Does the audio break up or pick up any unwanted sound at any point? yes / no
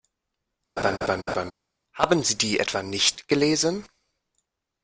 yes